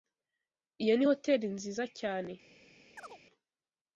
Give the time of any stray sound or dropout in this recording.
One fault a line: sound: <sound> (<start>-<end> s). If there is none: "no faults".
sound: chirp (3.0-3.2 s)